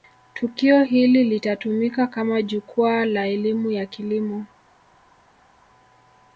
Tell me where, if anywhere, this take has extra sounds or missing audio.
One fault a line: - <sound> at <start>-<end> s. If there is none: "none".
none